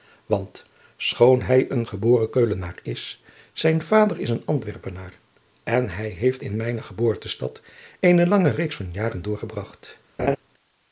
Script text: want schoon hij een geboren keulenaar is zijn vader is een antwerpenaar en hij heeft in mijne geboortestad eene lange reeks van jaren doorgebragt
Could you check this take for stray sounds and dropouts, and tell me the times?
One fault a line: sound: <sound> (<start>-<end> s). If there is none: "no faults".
sound: laugh (10.2-10.4 s)